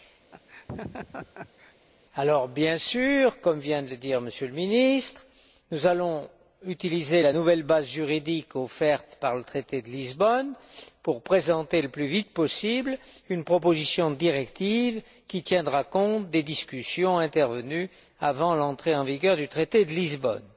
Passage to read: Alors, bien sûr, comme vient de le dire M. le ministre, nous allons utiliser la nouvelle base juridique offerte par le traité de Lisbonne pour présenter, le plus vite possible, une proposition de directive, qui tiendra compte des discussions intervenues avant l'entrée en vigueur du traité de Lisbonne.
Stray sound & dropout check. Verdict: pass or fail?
fail